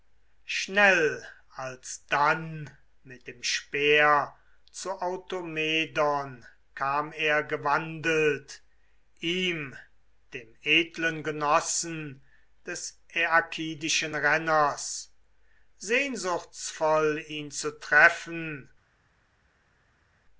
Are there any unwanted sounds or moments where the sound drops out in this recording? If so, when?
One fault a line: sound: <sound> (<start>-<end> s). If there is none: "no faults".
no faults